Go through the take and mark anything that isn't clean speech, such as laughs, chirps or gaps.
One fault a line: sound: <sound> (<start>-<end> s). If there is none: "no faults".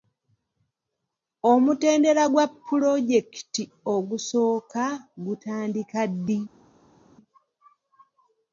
no faults